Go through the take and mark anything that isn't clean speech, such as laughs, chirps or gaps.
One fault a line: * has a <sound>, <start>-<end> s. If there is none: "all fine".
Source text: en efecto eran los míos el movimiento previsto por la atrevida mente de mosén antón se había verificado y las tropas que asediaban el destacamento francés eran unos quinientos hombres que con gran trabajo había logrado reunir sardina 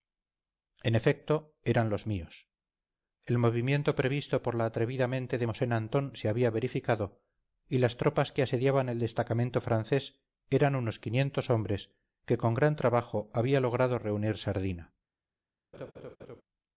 * has a laugh, 15.7-16.4 s